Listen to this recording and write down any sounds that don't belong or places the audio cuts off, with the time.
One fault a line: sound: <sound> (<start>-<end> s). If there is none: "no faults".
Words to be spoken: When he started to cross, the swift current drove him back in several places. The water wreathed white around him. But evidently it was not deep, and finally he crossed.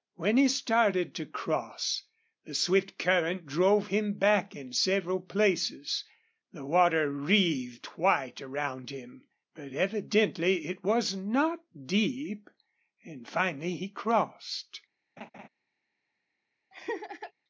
sound: laugh (15.2-15.5 s)
sound: laugh (16.7-17.3 s)